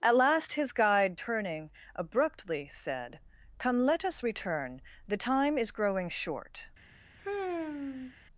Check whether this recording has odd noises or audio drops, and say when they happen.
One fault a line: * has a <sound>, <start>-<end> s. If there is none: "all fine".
* has a sigh, 7.2-8.2 s